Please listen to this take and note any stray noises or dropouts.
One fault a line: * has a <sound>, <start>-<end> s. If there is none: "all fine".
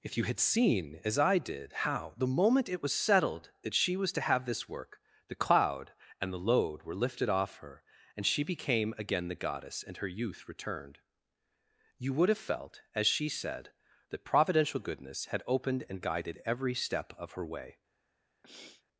* has a sniff, 18.4-18.8 s